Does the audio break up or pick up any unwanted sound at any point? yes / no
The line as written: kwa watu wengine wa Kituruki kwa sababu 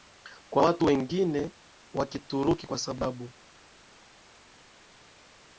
no